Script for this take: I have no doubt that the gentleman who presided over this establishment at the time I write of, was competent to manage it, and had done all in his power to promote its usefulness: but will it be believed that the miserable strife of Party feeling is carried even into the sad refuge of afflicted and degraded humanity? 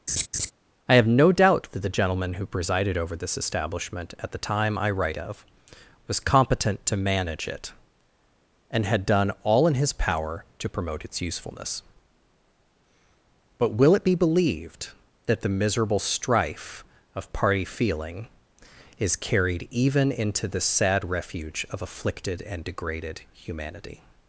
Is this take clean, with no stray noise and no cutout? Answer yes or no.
no